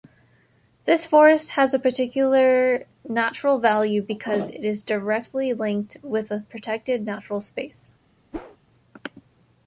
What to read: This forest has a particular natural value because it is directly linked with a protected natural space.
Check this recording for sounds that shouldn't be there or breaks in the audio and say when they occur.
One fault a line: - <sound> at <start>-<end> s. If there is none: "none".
- whoosh at 8.3-8.6 s